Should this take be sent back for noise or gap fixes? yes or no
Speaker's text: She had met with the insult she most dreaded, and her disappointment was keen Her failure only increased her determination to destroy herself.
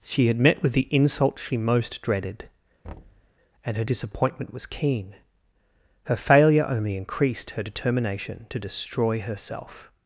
yes